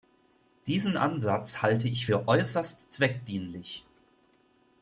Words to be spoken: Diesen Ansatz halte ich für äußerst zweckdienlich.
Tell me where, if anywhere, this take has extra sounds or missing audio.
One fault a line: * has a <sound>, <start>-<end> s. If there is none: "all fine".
all fine